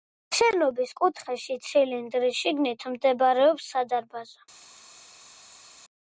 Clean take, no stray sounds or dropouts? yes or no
yes